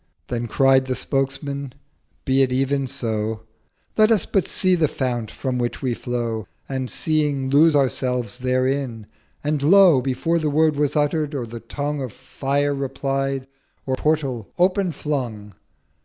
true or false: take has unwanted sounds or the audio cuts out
false